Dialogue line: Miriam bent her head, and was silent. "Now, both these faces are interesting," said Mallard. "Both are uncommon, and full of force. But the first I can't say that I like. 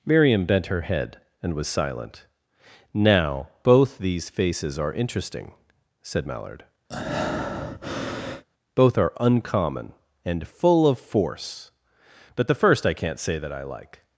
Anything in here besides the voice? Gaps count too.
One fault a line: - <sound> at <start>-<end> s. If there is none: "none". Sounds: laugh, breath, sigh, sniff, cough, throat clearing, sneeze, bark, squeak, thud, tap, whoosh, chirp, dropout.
- breath at 6.9-8.5 s